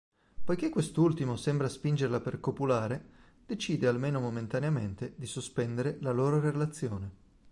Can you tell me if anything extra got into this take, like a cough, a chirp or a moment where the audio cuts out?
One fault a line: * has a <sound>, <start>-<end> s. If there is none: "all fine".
all fine